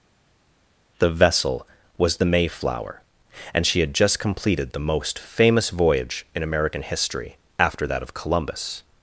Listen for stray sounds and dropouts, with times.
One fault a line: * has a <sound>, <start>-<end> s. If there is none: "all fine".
all fine